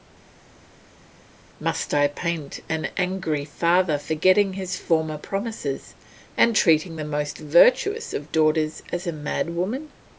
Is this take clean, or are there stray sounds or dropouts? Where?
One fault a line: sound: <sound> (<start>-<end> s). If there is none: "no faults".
no faults